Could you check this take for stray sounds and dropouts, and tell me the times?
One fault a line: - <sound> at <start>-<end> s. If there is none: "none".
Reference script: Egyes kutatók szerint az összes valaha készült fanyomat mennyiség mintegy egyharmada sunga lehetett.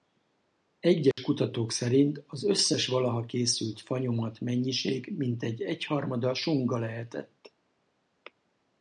- dropout at 1.1-1.2 s